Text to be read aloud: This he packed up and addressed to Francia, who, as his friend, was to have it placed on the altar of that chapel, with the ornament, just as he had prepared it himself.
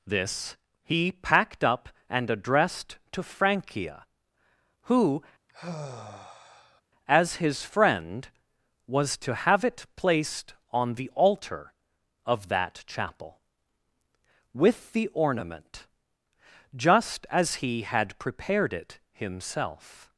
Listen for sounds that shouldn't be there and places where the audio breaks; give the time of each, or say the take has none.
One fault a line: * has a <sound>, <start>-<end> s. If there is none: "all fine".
* has a sigh, 5.5-6.8 s